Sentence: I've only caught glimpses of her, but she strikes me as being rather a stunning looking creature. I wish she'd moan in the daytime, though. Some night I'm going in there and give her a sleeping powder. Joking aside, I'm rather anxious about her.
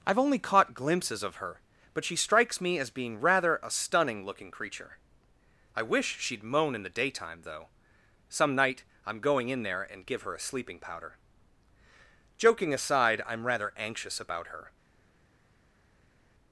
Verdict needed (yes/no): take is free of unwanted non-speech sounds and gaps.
yes